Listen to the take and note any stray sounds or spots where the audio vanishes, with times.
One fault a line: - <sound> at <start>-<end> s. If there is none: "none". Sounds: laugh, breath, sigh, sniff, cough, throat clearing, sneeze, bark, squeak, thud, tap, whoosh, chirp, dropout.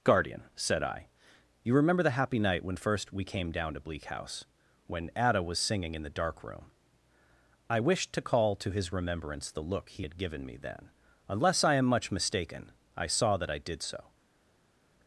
none